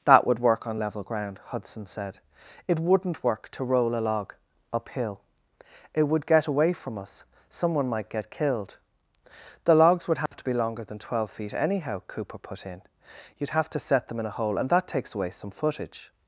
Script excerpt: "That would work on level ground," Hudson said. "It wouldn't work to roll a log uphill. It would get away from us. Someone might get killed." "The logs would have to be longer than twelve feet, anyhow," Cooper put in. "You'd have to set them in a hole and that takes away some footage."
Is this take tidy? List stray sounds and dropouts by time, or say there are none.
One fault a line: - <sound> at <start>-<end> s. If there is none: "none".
- dropout at 10.3-10.3 s